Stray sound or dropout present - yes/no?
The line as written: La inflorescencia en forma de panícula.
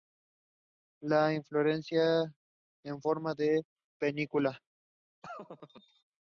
yes